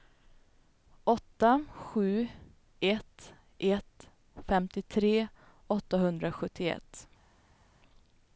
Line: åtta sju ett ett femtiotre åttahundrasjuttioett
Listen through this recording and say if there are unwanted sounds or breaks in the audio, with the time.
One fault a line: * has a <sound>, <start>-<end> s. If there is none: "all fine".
all fine